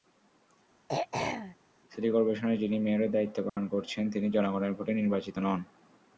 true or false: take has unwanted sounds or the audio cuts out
true